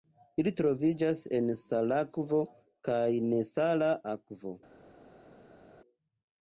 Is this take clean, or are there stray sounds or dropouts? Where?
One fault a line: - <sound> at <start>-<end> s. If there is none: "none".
none